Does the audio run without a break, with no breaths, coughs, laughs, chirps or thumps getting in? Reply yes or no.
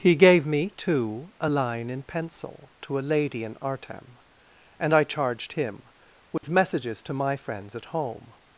no